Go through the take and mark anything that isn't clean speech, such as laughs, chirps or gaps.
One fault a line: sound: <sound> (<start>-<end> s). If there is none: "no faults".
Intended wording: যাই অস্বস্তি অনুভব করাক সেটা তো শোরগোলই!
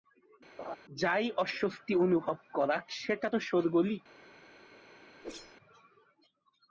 sound: laugh (0.6-0.8 s)
sound: whoosh (5.2-5.6 s)